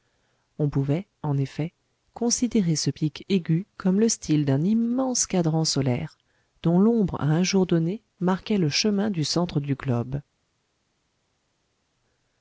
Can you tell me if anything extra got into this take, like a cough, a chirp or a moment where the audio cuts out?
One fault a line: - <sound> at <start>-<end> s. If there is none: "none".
none